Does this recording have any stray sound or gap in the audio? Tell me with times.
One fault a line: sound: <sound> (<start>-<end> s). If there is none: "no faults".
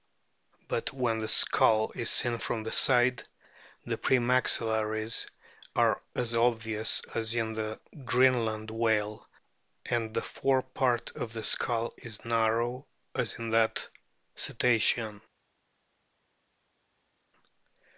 no faults